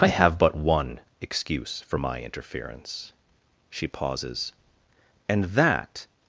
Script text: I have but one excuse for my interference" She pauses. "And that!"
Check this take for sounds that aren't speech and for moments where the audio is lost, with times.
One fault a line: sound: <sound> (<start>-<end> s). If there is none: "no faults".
no faults